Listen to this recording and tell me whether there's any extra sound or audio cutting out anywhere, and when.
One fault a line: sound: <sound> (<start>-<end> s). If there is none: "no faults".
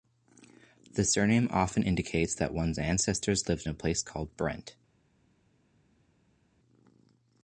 no faults